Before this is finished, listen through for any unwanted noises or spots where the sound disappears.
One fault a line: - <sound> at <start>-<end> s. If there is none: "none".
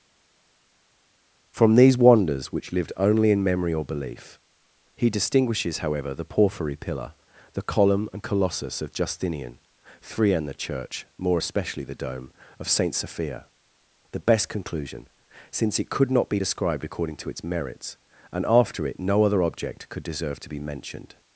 none